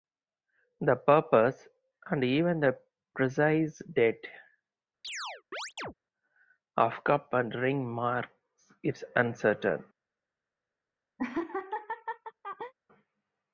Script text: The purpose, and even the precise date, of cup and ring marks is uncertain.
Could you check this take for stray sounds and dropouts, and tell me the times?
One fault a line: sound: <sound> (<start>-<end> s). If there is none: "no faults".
sound: chirp (5.0-5.9 s)
sound: laugh (11.2-12.7 s)